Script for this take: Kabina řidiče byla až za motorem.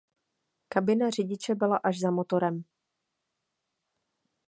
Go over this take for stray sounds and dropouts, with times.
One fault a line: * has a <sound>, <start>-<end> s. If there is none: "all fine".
all fine